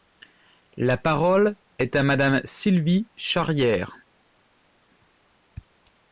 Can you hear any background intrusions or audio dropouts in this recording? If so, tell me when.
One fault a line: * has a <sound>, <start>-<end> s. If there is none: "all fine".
all fine